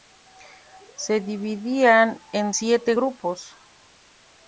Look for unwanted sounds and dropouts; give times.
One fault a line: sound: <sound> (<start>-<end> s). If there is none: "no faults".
no faults